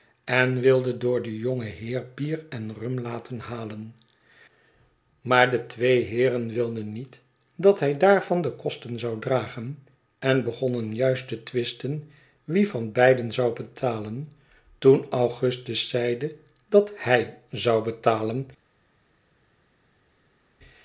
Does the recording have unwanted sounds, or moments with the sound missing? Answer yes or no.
no